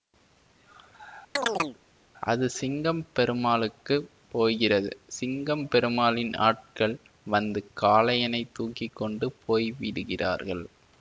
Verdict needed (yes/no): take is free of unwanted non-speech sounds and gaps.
no